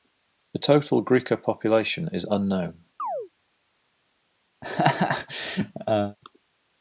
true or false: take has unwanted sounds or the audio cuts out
true